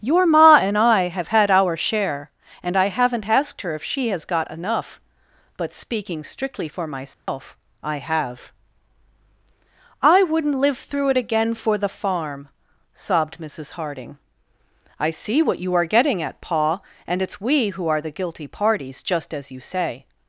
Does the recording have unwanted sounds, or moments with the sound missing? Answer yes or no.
yes